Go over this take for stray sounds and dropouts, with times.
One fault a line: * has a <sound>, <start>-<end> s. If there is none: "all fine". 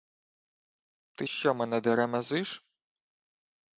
all fine